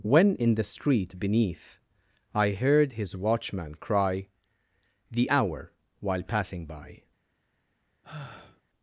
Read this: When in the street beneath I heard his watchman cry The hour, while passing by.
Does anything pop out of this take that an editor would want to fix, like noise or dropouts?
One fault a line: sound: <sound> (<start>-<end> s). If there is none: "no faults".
sound: sigh (8.0-8.6 s)